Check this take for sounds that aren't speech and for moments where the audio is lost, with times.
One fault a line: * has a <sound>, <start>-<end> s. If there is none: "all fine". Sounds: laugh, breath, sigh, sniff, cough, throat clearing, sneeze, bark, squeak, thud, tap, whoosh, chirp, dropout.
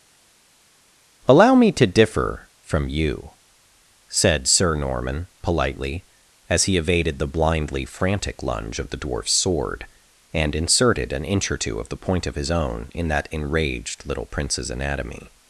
all fine